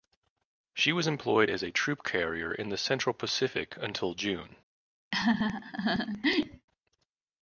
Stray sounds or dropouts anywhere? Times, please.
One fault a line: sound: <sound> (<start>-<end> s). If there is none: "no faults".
sound: laugh (5.1-6.7 s)